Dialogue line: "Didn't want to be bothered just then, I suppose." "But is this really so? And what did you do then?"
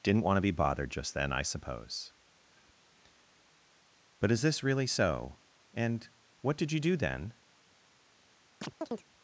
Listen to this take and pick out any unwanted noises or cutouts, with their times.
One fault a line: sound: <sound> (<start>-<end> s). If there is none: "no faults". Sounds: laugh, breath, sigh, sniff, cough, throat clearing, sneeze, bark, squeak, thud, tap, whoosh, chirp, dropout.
sound: chirp (8.6-9.1 s)